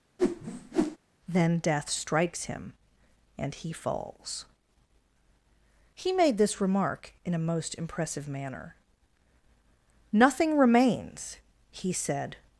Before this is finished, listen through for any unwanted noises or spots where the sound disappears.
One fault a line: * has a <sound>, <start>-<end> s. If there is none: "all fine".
* has a whoosh, 0.2-1.0 s